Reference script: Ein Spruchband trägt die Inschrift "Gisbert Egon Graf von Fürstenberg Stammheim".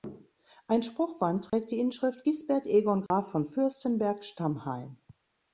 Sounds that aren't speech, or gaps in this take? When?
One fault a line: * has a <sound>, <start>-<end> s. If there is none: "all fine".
* has a dropout, 1.5-1.5 s
* has a dropout, 3.1-3.1 s